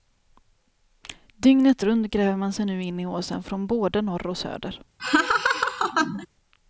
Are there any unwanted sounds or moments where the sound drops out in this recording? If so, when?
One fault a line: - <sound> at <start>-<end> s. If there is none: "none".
- laugh at 5.0-6.3 s